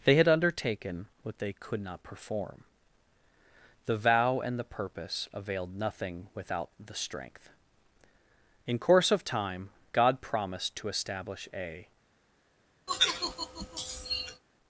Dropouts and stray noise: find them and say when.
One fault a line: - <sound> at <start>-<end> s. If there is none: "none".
- sigh at 12.9-14.4 s